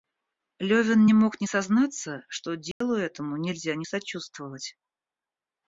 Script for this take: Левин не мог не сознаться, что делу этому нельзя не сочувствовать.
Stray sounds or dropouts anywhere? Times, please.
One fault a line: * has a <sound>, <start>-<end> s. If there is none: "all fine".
* has a dropout, 2.7-2.8 s